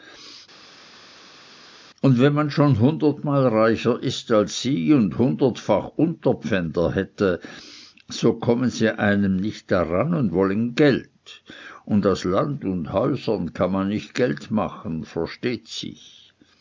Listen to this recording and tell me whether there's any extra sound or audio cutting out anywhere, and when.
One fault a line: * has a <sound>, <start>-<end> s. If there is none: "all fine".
all fine